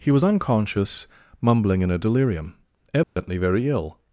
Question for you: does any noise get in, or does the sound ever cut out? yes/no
yes